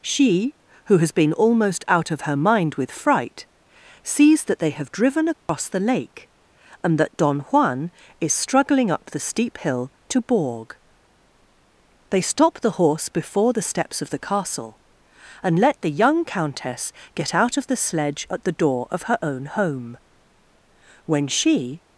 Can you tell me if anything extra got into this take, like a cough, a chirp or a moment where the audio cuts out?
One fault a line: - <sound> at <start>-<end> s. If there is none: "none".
- dropout at 5.3-5.5 s